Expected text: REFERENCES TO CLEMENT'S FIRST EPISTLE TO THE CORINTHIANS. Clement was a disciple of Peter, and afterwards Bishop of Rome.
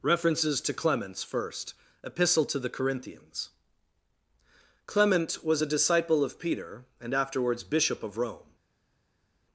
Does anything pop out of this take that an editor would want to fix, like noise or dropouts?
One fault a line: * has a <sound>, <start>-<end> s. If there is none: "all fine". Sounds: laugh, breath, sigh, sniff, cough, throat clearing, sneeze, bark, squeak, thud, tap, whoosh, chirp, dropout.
all fine